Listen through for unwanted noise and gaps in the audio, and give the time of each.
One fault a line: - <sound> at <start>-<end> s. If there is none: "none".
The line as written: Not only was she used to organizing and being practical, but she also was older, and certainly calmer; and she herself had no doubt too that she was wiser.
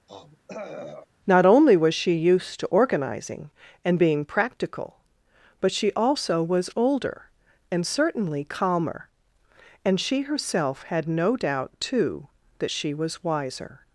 - throat clearing at 0.1-1.0 s